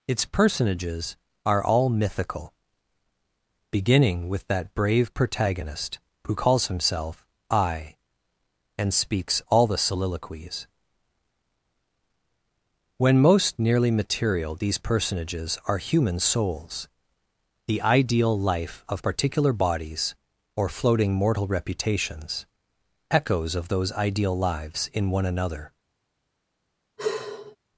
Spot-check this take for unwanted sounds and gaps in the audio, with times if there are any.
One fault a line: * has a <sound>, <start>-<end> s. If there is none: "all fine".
* has a sigh, 27.0-27.6 s